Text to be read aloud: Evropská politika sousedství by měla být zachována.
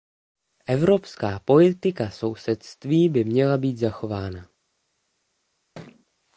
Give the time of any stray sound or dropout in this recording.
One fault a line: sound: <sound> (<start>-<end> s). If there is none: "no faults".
sound: thud (5.8-6.1 s)